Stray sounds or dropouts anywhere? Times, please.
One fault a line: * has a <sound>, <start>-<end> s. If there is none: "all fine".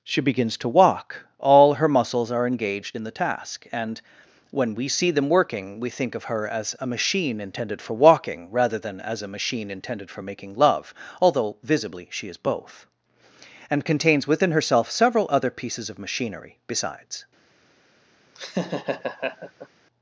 * has a laugh, 18.4-19.7 s